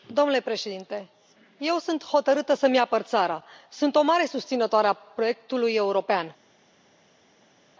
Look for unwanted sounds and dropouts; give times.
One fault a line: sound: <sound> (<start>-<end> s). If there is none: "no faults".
no faults